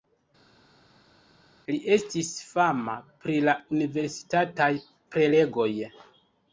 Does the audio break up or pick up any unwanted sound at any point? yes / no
no